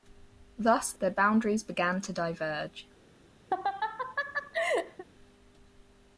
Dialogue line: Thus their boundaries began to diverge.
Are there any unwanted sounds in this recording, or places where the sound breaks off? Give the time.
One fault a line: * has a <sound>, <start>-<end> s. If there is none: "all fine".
* has a laugh, 3.5-5.0 s